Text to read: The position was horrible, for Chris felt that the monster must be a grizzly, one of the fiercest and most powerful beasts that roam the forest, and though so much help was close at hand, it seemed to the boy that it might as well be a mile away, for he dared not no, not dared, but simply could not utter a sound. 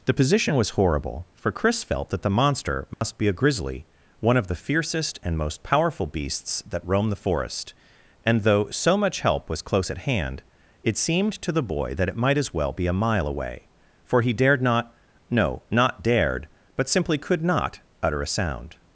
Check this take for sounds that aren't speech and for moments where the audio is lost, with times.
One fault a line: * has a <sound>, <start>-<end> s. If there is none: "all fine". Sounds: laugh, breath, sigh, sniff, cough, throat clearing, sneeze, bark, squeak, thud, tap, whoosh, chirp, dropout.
* has a dropout, 2.9-3.0 s